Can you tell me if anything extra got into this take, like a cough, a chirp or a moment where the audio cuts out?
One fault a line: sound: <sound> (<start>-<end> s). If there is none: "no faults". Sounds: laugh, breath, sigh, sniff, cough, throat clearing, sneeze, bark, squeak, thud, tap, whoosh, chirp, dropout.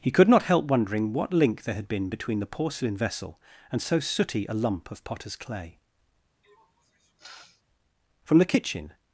sound: sniff (6.4-7.6 s)